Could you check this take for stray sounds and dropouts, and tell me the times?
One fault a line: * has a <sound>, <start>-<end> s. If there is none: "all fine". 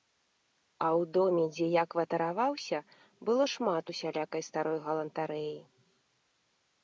all fine